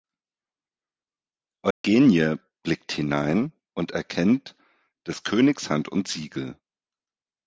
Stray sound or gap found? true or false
true